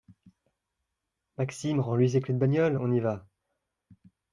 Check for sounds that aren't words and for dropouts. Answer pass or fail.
pass